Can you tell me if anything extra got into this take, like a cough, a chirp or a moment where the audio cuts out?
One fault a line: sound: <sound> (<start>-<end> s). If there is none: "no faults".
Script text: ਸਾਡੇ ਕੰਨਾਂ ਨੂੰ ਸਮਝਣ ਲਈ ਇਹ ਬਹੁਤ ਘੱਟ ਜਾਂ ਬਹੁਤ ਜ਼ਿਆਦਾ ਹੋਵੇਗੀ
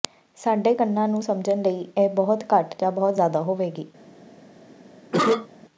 sound: cough (5.1-5.5 s)